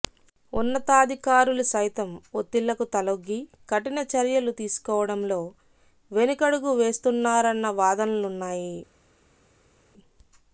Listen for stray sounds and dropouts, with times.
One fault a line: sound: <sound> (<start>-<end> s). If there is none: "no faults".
no faults